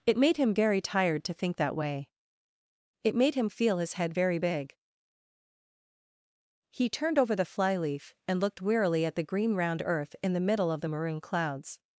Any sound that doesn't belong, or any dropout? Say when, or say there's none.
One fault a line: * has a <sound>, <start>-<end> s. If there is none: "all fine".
all fine